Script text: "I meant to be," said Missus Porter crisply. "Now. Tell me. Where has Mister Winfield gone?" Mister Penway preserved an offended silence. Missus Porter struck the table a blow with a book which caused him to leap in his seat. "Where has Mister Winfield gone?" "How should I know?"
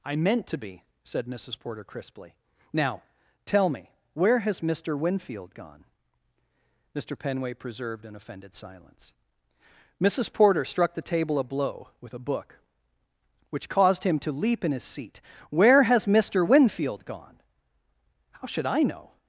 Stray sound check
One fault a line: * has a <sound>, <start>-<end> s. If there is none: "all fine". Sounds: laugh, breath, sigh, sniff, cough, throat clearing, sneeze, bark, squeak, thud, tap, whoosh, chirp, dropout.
all fine